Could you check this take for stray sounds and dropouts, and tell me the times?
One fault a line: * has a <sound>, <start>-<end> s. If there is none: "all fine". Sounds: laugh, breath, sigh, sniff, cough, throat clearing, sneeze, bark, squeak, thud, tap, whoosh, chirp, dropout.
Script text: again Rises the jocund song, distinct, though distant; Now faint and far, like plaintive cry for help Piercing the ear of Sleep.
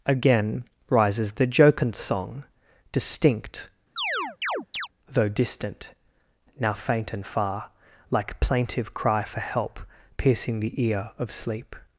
* has a chirp, 4.0-4.9 s